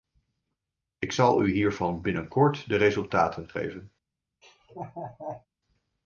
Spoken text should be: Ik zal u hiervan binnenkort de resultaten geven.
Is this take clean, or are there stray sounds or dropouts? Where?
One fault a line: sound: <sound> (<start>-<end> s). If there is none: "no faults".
sound: laugh (4.4-5.5 s)